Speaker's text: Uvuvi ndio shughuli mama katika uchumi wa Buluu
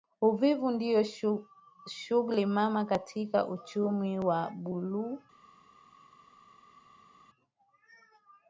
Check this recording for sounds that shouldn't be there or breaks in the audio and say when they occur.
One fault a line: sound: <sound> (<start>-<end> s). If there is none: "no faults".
no faults